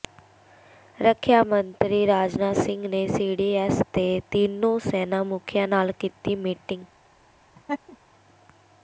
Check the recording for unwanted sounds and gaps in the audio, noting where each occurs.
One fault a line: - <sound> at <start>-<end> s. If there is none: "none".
- laugh at 7.5-8.0 s